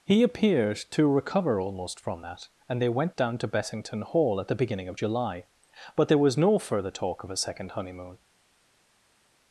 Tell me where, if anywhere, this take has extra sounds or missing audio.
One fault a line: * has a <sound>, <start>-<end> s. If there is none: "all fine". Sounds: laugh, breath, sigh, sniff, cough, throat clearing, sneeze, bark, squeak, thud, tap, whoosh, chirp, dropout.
all fine